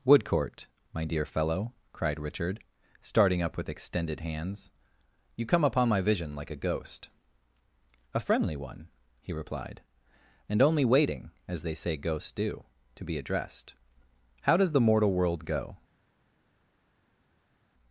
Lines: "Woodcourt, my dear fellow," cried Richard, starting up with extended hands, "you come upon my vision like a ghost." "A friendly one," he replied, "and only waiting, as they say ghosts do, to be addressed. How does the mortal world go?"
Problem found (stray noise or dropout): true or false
false